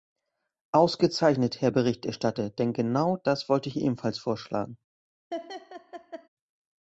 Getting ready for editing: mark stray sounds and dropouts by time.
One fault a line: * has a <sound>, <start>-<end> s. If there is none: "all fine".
* has a laugh, 5.3-6.3 s